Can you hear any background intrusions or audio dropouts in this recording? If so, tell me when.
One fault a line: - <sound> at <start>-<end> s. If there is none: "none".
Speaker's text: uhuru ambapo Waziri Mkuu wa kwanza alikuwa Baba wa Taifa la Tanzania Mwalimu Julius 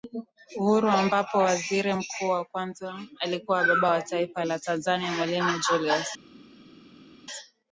none